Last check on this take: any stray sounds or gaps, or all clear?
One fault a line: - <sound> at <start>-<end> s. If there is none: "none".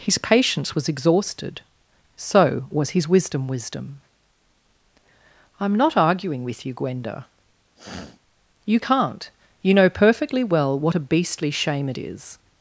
- sniff at 7.7-8.2 s